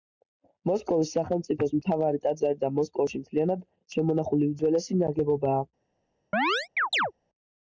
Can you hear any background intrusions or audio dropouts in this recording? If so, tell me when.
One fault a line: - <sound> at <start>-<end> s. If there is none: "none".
- chirp at 6.3-7.1 s